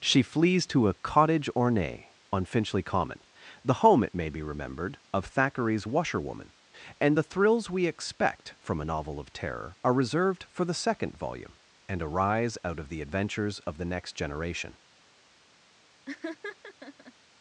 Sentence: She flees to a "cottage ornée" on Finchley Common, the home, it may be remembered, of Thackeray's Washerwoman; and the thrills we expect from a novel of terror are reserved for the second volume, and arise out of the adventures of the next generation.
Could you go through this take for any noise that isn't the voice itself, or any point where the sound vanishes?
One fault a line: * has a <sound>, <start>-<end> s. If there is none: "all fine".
* has a laugh, 16.1-17.1 s